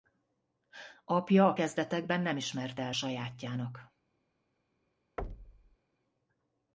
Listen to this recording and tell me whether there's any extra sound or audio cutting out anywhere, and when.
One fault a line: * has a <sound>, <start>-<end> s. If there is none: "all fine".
* has a thud, 5.2-5.8 s